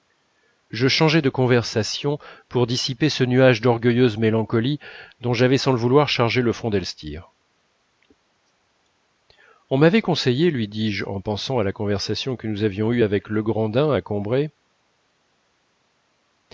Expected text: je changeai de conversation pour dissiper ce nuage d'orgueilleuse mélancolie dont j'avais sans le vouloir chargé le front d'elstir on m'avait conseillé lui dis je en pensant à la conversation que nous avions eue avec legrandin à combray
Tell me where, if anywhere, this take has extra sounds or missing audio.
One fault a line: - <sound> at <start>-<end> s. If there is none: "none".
none